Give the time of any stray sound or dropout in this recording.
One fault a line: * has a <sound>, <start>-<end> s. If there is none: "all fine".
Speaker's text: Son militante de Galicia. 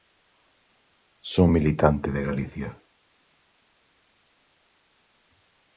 all fine